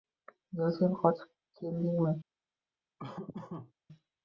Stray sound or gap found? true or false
true